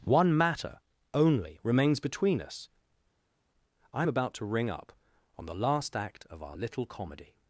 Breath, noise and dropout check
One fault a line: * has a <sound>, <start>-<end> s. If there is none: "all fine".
all fine